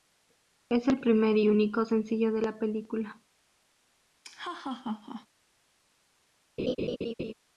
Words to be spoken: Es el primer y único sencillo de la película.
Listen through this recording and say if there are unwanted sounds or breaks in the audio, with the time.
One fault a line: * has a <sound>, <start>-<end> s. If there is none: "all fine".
* has a laugh, 4.2-5.3 s
* has a laugh, 6.6-7.3 s